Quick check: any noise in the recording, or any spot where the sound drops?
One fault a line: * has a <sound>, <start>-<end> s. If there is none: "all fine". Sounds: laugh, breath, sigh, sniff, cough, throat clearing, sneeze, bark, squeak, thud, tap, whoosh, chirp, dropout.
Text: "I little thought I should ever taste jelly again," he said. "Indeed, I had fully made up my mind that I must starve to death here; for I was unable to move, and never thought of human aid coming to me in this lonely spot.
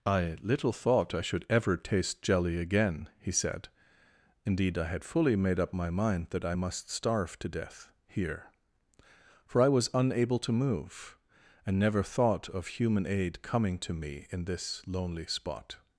all fine